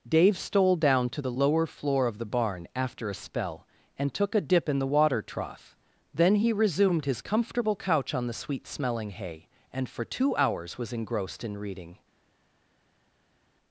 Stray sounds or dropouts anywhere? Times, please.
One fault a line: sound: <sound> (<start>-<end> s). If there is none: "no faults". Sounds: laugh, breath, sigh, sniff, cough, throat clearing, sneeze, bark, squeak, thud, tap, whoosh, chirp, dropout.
no faults